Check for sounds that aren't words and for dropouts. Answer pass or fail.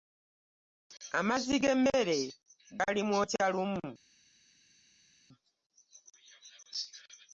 pass